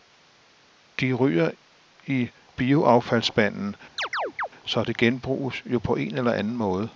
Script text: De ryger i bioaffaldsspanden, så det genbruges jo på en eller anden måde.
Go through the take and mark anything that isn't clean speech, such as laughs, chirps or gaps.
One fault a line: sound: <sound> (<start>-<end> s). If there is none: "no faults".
sound: chirp (4.0-4.5 s)